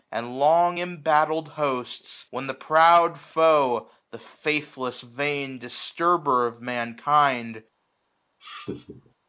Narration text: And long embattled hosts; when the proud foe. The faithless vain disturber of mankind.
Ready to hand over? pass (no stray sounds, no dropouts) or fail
fail